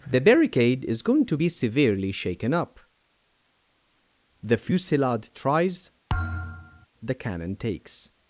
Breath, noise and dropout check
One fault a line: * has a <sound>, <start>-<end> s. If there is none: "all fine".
* has a thud, 6.1-6.9 s